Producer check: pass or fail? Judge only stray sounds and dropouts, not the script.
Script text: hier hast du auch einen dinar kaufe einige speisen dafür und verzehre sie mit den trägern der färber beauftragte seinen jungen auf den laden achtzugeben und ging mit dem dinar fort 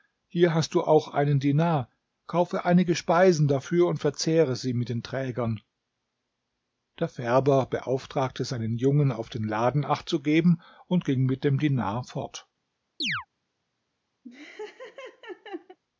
fail